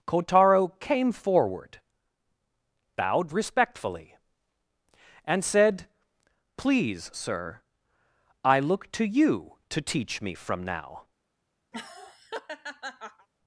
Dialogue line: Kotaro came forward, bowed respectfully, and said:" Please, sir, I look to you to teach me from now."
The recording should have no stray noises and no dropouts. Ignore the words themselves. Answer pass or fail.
fail